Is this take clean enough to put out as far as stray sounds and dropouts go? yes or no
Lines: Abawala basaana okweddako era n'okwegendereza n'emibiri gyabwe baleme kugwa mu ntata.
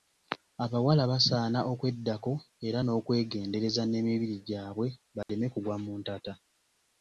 no